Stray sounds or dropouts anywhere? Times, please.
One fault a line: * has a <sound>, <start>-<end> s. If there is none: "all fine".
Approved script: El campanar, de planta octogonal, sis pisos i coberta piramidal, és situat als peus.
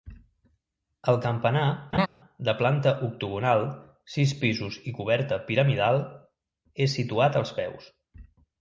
* has a laugh, 1.9-2.1 s